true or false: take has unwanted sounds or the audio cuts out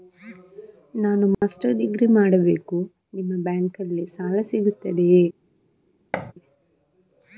true